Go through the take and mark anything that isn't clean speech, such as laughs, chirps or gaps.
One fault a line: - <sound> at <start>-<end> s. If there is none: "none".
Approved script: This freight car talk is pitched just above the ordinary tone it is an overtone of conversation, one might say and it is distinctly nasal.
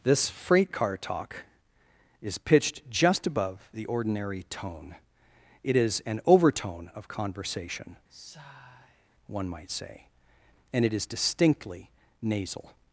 - sigh at 8.1-9.1 s